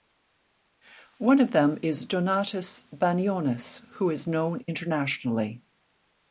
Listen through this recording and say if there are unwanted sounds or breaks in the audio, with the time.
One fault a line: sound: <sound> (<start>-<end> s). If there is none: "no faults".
no faults